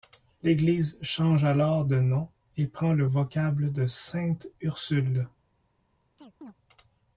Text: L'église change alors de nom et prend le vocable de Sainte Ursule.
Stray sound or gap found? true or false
true